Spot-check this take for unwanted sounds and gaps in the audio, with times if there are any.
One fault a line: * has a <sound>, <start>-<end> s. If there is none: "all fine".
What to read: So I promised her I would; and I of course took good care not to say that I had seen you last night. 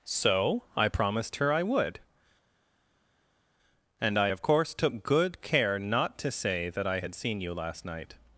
all fine